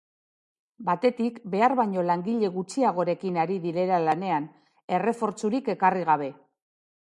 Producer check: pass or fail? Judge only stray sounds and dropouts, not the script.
pass